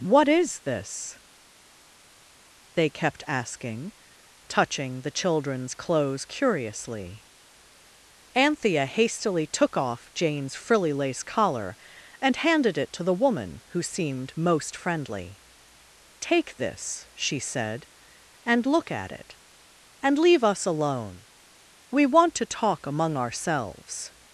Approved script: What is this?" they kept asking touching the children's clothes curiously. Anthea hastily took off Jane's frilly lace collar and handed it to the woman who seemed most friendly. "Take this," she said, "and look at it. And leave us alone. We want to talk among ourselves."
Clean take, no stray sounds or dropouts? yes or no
yes